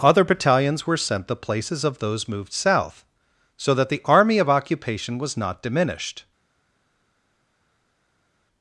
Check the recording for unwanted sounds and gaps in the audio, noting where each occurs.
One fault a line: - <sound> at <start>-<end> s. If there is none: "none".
none